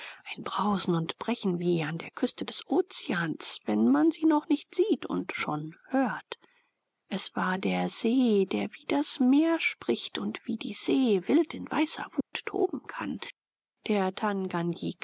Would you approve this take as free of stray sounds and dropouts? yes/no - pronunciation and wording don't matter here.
no